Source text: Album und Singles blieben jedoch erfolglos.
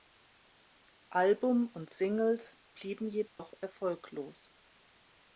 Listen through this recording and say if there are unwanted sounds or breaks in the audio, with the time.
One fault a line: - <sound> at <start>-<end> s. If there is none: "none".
- dropout at 3.3-3.4 s